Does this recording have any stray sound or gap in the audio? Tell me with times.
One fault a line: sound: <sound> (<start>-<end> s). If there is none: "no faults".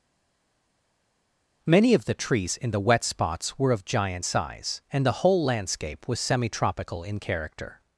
no faults